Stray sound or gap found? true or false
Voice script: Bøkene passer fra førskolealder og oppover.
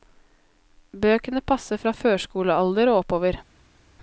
false